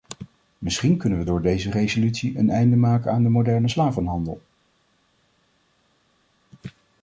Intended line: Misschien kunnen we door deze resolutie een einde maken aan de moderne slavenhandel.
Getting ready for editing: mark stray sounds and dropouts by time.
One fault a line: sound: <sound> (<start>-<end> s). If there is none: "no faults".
no faults